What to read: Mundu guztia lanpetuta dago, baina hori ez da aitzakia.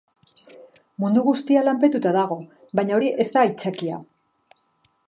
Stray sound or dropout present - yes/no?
no